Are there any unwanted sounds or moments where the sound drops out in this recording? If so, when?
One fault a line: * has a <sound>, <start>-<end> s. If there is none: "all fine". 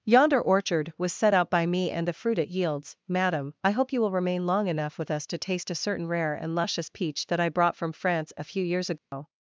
* has a dropout, 9.0-9.1 s